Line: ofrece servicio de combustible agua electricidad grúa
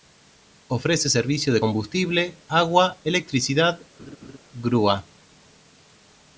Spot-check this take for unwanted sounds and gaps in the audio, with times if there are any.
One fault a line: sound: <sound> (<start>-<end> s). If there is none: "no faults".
sound: laugh (4.0-4.4 s)